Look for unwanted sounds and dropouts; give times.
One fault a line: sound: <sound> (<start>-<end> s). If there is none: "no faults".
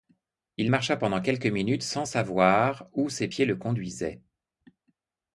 no faults